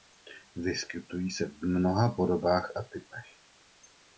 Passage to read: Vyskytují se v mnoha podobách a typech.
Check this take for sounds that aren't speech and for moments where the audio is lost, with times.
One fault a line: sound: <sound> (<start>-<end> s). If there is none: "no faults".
no faults